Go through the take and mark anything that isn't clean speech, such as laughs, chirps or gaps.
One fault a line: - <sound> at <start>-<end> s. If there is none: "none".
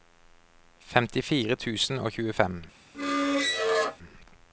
- squeak at 2.9-4.0 s